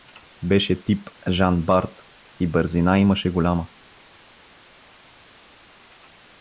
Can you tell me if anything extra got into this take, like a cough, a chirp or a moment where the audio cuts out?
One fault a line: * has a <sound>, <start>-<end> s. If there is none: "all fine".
all fine